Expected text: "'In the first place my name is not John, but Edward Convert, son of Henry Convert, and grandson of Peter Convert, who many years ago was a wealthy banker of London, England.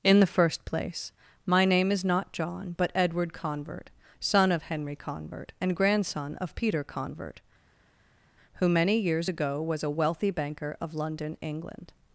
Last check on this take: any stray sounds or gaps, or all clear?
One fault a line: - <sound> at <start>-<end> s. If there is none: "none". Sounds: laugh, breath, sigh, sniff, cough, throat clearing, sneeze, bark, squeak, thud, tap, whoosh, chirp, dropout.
none